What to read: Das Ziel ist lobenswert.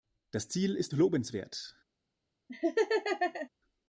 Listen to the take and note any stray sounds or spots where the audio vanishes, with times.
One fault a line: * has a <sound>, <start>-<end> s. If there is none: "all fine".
* has a laugh, 2.5-3.5 s